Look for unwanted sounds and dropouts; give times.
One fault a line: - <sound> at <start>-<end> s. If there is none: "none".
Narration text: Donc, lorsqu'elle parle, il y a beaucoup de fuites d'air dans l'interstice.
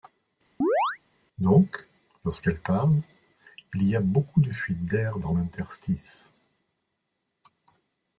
- chirp at 0.6-1.0 s